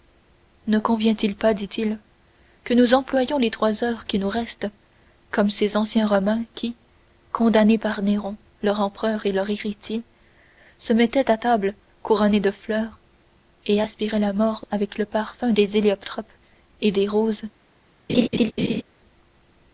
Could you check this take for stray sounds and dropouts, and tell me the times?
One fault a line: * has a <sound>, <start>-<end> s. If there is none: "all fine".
* has a laugh, 18.1-18.8 s